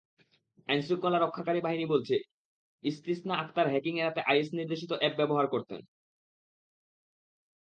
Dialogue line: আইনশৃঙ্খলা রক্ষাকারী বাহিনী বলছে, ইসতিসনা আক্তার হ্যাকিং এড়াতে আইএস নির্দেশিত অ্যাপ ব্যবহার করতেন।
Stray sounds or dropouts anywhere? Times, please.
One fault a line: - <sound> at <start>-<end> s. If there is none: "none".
none